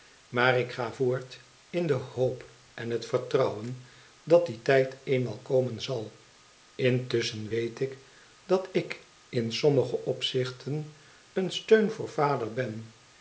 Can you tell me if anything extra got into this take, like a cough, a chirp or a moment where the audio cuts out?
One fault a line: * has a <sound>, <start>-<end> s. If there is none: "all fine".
all fine